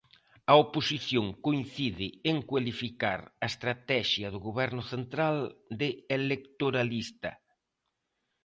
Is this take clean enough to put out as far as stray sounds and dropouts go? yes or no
yes